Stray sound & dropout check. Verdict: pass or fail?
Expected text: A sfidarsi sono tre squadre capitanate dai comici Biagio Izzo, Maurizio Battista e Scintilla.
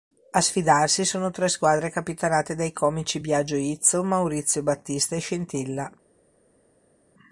pass